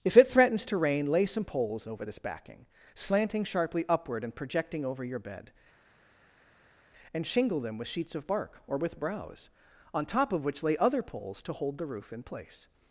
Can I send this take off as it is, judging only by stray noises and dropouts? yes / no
yes